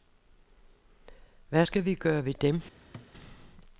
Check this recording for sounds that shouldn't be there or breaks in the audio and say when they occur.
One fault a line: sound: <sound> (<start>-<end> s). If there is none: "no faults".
sound: thud (2.9-3.1 s)